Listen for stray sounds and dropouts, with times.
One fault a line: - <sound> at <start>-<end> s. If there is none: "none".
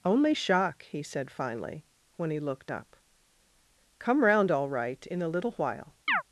- chirp at 6.1-6.2 s